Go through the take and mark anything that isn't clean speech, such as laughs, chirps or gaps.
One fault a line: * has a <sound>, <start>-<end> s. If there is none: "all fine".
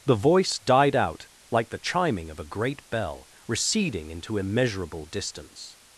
all fine